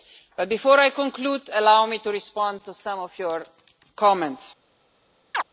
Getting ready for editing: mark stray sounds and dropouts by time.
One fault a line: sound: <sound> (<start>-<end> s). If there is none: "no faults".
sound: chirp (5.3-5.4 s)